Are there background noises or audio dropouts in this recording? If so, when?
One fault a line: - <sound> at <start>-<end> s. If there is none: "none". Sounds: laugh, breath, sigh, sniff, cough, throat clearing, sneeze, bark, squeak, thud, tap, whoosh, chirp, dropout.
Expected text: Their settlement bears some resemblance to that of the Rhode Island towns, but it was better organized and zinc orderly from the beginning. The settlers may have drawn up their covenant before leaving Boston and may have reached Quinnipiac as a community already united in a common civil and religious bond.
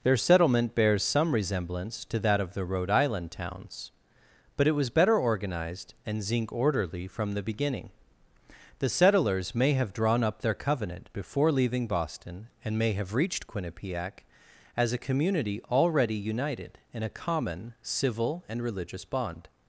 none